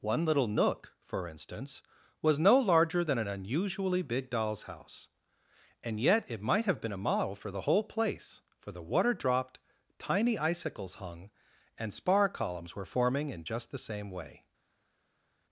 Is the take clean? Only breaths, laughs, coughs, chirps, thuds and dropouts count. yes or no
yes